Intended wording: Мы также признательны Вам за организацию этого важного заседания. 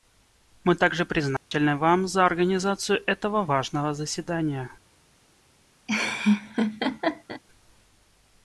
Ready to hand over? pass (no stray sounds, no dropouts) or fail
fail